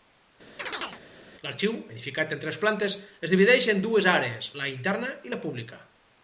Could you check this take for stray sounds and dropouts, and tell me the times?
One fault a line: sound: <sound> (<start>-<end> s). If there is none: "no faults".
sound: chirp (0.6-1.0 s)